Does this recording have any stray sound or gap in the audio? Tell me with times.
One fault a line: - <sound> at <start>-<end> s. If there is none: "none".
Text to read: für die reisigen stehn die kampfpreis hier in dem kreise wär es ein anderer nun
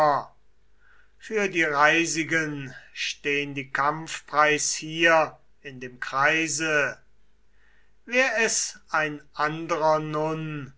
none